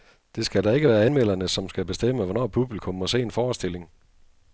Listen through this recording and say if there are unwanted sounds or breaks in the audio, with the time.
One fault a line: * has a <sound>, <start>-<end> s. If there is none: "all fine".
all fine